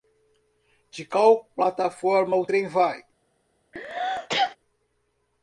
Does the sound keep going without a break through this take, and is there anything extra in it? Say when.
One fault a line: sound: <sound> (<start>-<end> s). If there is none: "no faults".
sound: sneeze (3.7-4.6 s)